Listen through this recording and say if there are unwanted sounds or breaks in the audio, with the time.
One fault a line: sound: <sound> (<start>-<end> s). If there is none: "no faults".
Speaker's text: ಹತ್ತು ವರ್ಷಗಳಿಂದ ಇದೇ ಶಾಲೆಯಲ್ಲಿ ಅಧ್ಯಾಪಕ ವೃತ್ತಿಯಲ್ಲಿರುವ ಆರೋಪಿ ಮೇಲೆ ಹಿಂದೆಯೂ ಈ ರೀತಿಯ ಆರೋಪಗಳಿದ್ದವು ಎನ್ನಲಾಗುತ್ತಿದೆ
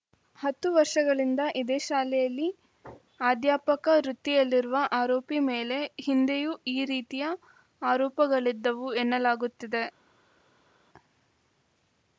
no faults